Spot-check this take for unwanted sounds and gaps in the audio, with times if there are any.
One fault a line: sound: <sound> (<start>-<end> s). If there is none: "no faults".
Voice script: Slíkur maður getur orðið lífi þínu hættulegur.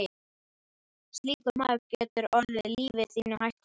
no faults